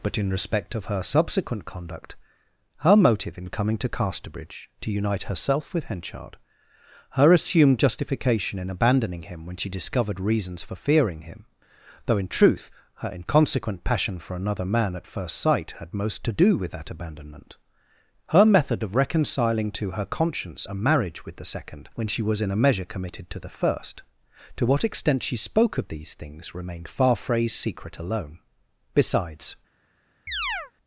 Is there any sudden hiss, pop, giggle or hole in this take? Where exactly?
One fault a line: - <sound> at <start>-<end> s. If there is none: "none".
- chirp at 30.3-30.7 s